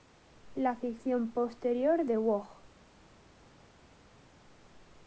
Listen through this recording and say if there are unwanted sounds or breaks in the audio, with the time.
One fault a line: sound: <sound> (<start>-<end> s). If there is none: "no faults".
no faults